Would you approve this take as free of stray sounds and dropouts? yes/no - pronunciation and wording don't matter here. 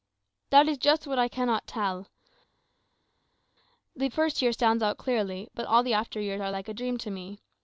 yes